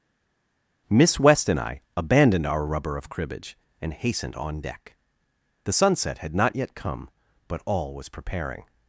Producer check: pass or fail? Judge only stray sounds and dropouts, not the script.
pass